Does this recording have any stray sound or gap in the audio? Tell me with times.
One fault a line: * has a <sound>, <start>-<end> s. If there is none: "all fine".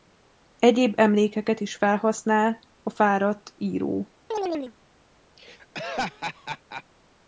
* has a chirp, 4.3-4.7 s
* has a laugh, 5.4-6.8 s